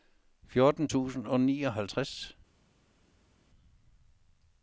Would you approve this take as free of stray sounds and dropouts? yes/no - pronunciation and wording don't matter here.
yes